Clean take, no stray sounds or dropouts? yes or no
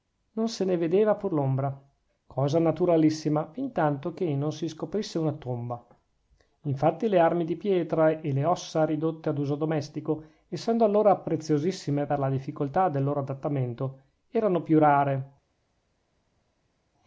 yes